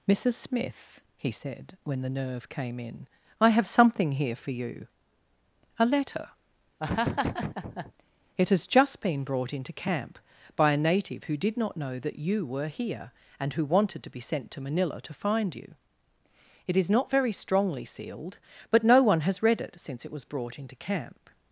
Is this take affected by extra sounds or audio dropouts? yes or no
yes